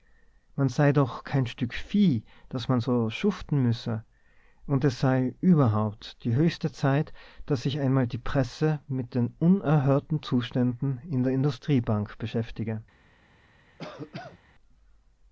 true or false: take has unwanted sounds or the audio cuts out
true